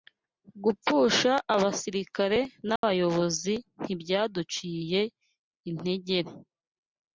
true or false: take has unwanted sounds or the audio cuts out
true